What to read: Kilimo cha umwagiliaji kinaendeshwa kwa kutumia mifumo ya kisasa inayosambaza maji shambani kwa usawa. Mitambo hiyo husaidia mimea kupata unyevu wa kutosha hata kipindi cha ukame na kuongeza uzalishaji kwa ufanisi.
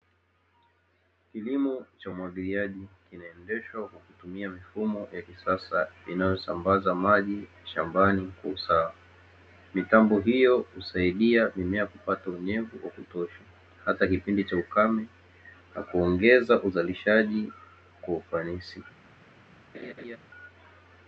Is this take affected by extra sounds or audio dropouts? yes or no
yes